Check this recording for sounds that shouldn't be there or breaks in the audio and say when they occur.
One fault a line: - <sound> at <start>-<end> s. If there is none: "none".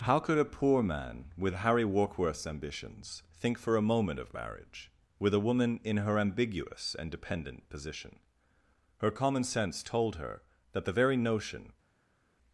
none